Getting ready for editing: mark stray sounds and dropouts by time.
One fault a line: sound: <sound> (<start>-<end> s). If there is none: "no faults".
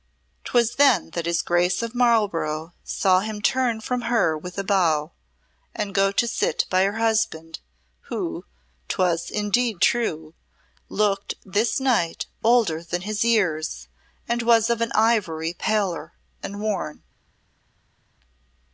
no faults